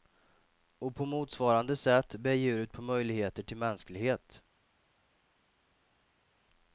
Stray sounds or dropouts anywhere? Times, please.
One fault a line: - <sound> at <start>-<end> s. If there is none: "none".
none